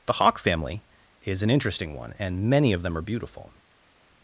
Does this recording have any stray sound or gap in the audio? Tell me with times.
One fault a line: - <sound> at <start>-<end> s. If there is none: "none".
none